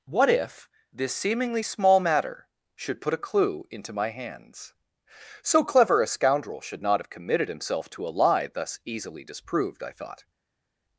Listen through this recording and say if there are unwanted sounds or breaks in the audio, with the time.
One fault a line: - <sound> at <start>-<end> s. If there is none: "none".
none